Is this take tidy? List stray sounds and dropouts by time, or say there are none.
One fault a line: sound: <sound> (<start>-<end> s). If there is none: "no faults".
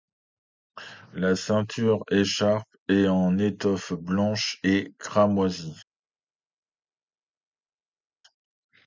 no faults